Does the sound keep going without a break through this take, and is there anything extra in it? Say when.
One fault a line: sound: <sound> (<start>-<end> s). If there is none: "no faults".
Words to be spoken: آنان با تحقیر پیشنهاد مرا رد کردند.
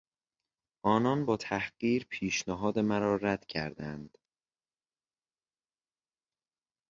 no faults